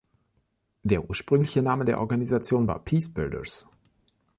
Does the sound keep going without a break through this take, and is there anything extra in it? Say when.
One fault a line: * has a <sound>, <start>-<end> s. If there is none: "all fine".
all fine